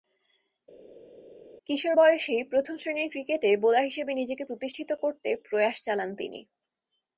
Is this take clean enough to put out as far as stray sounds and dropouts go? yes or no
yes